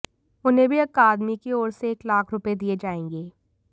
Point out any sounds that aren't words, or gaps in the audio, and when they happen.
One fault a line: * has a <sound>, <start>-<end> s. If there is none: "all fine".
all fine